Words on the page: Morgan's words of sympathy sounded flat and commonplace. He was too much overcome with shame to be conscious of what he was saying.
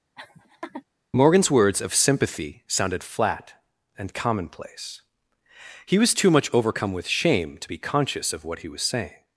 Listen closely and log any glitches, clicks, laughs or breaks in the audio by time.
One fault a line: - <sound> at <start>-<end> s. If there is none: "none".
- laugh at 0.2-0.8 s